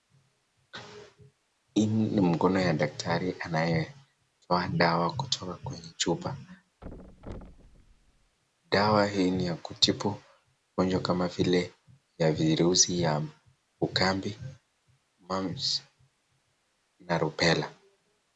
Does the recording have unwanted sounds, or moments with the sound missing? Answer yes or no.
yes